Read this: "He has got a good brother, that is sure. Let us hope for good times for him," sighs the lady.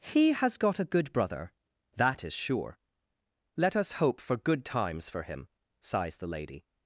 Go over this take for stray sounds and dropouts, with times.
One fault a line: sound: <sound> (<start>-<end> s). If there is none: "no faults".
no faults